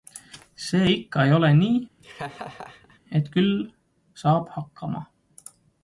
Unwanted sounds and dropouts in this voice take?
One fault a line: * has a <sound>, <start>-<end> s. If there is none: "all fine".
* has a laugh, 2.0-3.0 s